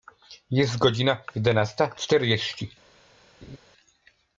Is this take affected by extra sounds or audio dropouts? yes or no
yes